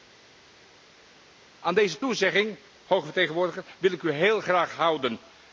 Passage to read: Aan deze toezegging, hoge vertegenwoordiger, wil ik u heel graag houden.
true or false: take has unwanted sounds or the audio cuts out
false